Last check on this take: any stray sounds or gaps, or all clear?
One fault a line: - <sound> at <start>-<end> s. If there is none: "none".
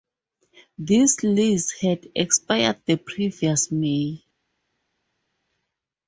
none